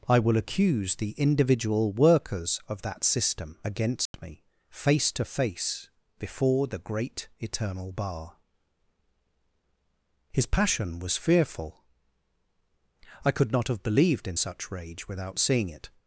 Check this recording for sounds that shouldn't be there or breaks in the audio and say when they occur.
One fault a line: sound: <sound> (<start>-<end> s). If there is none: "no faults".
sound: dropout (4.1-4.1 s)